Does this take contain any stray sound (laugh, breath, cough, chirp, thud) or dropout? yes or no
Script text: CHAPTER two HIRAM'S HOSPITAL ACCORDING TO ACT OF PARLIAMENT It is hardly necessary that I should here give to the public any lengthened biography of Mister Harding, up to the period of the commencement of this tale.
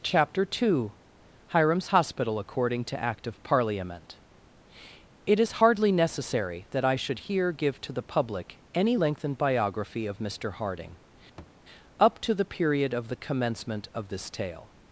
yes